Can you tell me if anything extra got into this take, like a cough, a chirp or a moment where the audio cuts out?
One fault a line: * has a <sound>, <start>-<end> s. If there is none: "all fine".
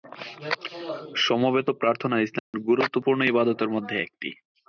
* has a dropout, 2.4-2.5 s